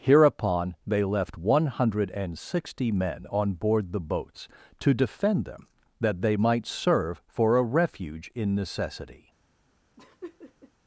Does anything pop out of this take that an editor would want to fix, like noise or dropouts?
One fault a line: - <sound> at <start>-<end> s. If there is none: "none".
- laugh at 10.0-10.7 s